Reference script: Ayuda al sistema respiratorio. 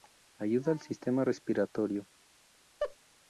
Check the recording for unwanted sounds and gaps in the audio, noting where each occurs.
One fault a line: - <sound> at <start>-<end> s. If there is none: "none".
- laugh at 2.8-3.0 s